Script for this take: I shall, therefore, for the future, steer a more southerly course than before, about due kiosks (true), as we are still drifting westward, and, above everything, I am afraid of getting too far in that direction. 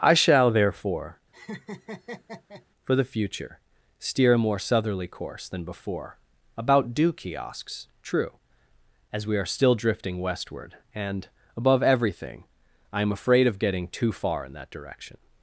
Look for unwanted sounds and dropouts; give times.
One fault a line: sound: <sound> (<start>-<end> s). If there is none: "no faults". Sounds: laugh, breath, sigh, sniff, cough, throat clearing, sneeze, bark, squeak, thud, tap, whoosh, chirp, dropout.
sound: laugh (1.3-2.7 s)